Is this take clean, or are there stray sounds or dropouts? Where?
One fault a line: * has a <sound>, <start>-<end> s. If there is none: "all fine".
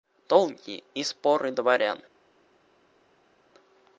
all fine